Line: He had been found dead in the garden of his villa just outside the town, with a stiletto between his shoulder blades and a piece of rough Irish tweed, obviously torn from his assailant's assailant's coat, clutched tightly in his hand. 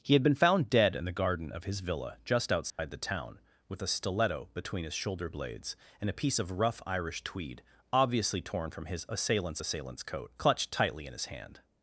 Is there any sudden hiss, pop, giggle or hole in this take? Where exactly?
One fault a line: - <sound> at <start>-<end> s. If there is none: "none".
- dropout at 2.7-2.8 s